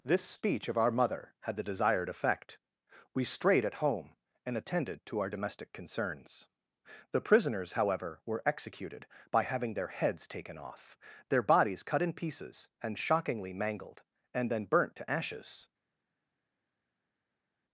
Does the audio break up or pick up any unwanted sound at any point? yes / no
no